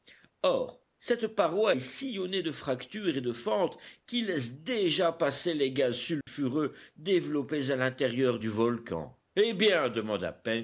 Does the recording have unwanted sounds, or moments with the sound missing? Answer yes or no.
yes